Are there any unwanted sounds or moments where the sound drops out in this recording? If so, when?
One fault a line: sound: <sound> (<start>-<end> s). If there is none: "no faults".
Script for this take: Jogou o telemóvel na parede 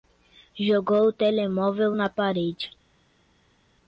no faults